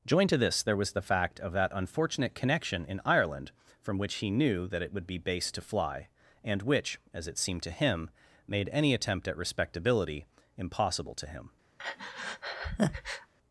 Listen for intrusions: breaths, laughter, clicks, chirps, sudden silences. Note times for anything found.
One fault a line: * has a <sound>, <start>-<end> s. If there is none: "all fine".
* has a breath, 11.8-13.3 s